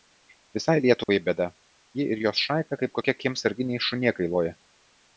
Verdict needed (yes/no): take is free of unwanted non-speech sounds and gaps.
no